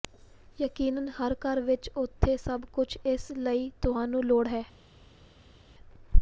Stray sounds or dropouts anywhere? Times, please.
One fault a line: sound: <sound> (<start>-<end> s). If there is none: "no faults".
no faults